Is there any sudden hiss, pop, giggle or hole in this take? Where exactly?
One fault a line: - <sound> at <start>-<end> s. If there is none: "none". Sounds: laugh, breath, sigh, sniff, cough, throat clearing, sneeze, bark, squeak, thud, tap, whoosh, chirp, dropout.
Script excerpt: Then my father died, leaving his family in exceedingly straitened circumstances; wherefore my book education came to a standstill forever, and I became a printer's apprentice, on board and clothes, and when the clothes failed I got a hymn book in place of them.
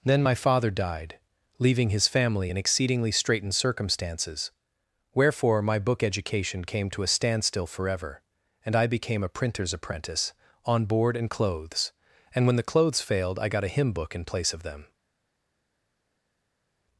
none